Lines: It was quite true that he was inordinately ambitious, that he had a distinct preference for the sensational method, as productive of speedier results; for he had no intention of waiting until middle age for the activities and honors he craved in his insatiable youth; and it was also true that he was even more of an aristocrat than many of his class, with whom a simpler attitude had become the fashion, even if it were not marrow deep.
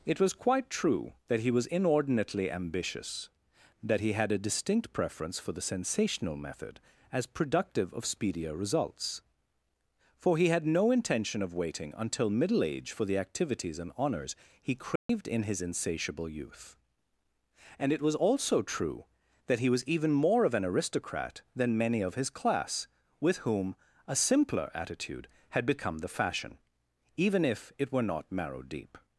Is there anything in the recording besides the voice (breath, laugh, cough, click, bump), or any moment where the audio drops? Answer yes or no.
yes